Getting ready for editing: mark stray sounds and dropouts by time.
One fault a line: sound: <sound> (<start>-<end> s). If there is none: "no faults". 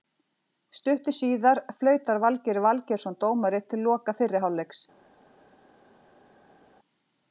no faults